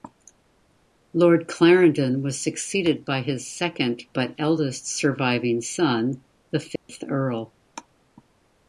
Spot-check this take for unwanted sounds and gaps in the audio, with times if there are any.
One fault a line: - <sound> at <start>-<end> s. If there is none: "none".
- dropout at 6.8-6.9 s